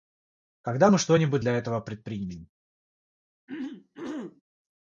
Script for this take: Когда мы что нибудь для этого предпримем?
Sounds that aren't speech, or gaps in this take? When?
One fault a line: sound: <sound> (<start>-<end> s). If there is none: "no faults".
sound: throat clearing (3.5-4.4 s)